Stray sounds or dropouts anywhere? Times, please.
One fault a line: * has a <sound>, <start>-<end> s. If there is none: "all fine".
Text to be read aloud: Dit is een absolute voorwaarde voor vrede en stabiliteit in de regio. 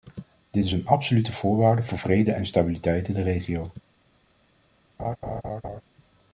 * has a laugh, 5.0-5.8 s